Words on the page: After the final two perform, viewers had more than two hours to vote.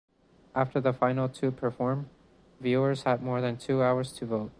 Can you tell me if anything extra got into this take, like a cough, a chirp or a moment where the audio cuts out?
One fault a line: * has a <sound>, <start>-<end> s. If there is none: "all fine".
all fine